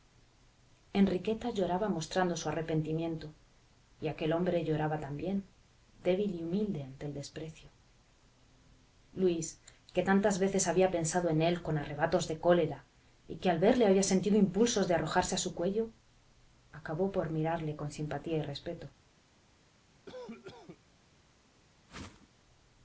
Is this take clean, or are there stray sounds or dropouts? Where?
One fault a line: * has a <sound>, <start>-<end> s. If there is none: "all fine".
* has a cough, 20.0-20.8 s
* has a whoosh, 21.9-22.3 s